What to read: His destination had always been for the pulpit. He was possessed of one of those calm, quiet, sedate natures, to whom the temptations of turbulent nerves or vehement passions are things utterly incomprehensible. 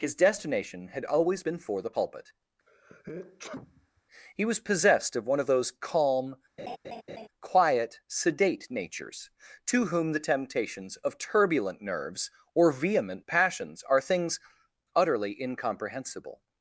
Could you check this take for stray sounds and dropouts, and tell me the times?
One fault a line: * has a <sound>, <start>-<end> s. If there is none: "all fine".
* has a sneeze, 2.7-4.0 s
* has a laugh, 6.6-7.3 s